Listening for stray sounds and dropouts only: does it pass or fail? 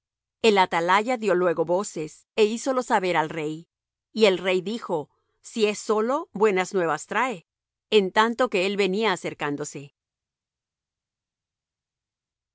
pass